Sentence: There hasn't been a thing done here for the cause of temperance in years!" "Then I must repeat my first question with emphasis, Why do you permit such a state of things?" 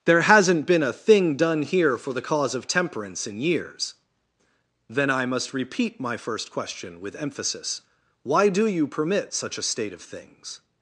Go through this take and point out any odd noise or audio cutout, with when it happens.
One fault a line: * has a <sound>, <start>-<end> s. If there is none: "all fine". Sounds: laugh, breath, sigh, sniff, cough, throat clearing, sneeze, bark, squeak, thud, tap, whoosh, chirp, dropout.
all fine